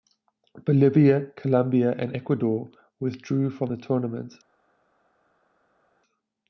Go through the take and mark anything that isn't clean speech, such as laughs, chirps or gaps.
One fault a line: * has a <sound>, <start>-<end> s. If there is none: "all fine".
all fine